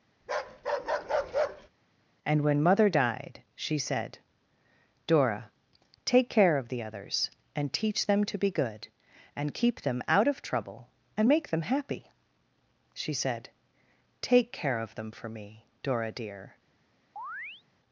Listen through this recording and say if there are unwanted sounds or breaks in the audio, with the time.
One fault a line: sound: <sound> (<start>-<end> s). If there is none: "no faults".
sound: bark (0.2-1.7 s)
sound: chirp (17.2-17.6 s)